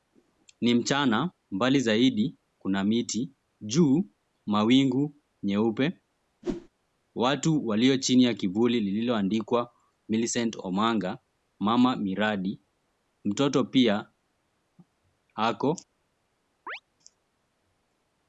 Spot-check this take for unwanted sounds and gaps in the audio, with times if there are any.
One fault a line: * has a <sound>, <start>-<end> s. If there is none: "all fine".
* has a whoosh, 6.4-6.7 s
* has a chirp, 16.7-16.8 s